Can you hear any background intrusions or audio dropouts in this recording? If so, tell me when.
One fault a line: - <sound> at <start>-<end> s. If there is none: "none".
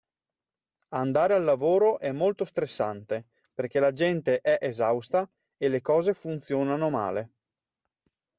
none